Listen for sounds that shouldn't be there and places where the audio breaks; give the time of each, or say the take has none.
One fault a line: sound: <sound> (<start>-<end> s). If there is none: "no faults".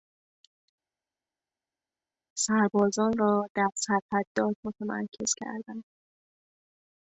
no faults